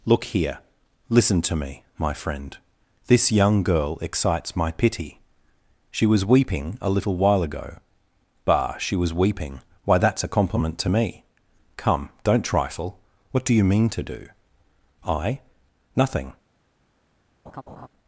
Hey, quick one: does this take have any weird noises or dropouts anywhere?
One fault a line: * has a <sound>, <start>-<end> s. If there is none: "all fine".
* has a laugh, 17.5-17.9 s